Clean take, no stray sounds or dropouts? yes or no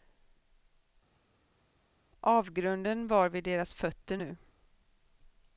yes